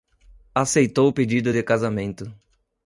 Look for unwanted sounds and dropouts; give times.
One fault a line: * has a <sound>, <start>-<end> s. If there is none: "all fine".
all fine